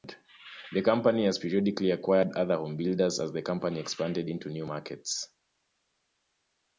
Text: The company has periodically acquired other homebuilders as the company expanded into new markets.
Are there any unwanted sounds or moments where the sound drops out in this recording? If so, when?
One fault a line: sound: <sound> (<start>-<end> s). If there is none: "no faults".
no faults